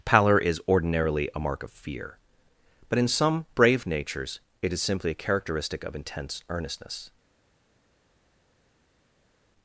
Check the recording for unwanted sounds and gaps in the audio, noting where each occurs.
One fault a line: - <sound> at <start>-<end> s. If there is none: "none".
none